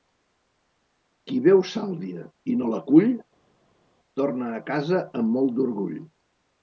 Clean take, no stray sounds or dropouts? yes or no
yes